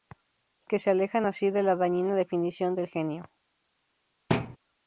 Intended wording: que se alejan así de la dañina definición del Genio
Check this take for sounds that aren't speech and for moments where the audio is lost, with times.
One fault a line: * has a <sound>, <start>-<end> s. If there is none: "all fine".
* has a thud, 4.3-4.6 s